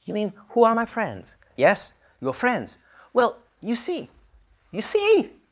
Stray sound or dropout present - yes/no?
no